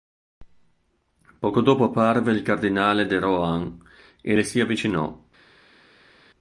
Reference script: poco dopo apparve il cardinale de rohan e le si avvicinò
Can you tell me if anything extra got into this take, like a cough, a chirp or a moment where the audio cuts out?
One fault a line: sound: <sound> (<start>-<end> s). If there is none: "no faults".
no faults